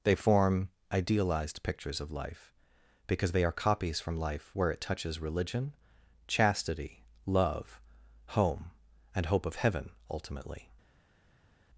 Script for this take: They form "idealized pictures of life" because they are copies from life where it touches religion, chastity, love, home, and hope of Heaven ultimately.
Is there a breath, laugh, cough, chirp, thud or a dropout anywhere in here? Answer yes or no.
no